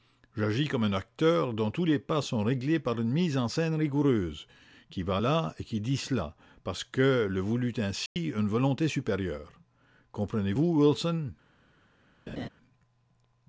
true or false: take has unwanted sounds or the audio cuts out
true